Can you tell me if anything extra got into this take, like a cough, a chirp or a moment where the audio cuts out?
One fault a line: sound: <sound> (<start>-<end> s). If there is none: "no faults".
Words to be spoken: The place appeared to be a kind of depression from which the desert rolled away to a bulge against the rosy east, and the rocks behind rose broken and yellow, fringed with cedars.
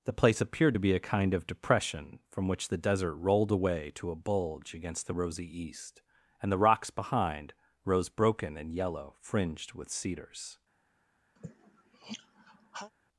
sound: sigh (11.4-12.9 s)